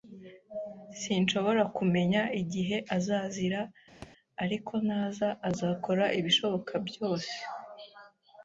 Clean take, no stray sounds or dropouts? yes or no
no